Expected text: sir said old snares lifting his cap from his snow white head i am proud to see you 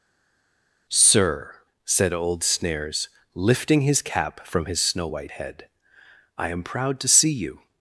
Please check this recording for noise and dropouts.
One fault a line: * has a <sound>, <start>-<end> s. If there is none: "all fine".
all fine